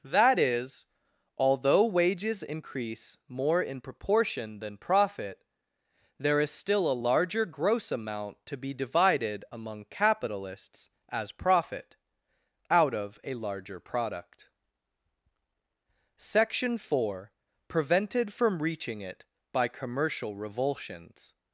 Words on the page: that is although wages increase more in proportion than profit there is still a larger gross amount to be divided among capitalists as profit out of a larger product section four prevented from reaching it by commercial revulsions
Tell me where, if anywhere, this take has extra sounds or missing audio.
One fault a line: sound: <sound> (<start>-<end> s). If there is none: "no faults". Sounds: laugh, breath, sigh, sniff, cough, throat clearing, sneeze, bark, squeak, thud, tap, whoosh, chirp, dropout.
no faults